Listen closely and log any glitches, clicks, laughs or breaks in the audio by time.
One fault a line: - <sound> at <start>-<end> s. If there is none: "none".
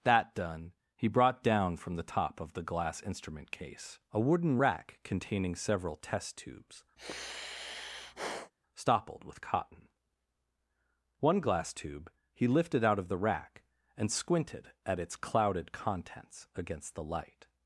- sigh at 7.0-8.5 s